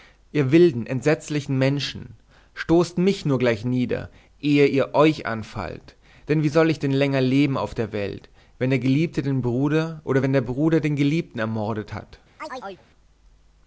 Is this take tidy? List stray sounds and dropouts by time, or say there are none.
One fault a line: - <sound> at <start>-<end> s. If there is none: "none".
- chirp at 12.4-12.9 s